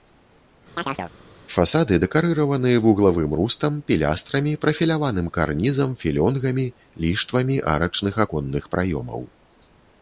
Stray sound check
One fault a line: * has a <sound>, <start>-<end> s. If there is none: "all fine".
* has a chirp, 0.8-1.1 s